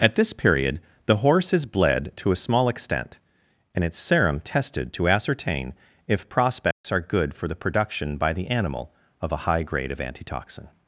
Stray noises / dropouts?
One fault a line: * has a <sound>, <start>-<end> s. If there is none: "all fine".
* has a dropout, 6.7-6.8 s